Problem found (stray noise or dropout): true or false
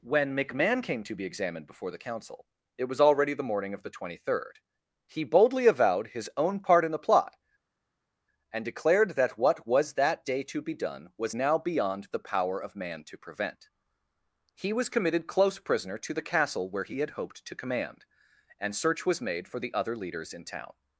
false